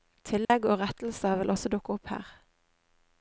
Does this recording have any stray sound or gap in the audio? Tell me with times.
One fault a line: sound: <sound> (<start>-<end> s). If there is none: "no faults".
sound: dropout (0.4-0.5 s)